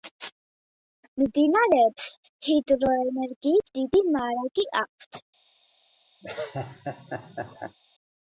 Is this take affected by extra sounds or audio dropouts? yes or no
yes